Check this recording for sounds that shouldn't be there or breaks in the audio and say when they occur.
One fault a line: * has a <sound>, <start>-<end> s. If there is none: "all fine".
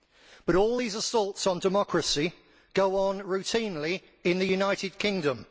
all fine